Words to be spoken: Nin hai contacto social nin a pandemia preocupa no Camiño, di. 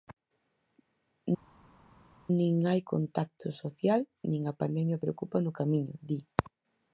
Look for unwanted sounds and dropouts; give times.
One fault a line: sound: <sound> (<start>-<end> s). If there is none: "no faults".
no faults